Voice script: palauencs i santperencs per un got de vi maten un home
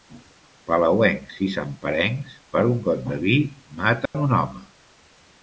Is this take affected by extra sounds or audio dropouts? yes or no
yes